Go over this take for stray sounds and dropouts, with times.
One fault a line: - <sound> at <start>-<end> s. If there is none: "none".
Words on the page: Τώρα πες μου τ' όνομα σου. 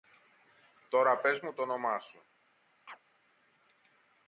- chirp at 2.9-3.0 s